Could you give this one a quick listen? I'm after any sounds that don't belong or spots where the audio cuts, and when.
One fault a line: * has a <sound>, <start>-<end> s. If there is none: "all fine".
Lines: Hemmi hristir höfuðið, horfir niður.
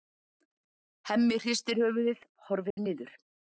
* has a dropout, 2.7-2.8 s